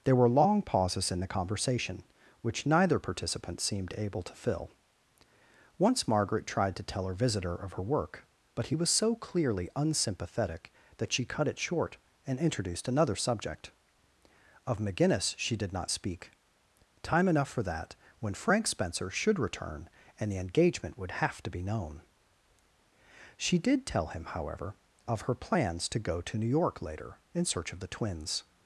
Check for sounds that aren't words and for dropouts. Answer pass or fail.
pass